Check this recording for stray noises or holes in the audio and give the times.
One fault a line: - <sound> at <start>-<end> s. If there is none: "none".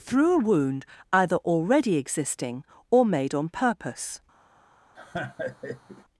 - laugh at 5.0-6.1 s